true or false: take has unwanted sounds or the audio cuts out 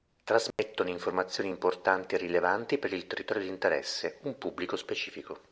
true